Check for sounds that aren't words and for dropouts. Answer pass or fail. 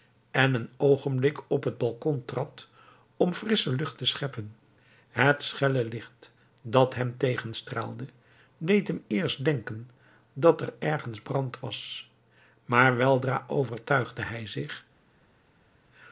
pass